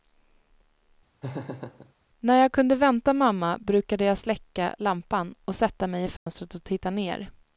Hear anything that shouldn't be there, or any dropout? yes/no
yes